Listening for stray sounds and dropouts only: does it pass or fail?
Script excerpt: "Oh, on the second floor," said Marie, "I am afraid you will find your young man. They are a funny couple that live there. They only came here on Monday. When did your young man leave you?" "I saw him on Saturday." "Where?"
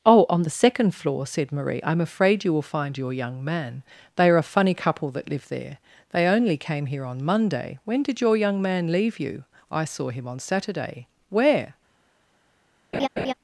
fail